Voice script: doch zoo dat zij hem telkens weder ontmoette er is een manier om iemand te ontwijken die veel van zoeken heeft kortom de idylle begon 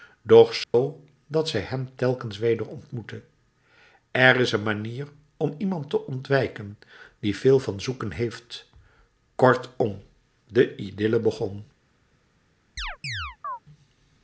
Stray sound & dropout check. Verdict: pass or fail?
fail